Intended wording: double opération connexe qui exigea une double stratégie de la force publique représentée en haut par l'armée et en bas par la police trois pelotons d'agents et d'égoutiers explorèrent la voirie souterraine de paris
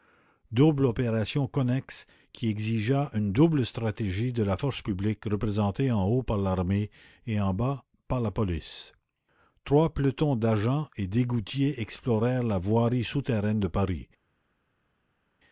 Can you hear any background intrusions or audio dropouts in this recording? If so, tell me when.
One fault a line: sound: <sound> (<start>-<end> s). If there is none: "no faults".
no faults